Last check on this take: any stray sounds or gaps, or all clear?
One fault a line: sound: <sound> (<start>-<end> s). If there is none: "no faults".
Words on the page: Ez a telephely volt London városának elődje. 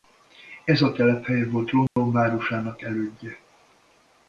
sound: dropout (1.9-2.0 s)